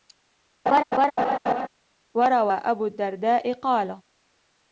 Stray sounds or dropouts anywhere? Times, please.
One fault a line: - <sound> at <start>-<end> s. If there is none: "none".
- laugh at 0.7-1.7 s